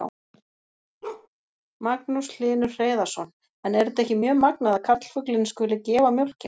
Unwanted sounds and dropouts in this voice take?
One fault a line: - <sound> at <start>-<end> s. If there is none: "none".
- bark at 1.0-1.3 s